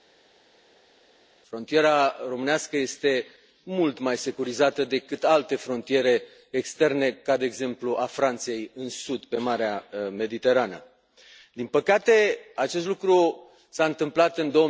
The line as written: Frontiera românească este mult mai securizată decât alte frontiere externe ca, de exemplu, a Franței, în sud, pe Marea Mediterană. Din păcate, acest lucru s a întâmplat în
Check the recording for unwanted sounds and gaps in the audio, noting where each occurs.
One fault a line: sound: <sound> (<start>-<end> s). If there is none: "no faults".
no faults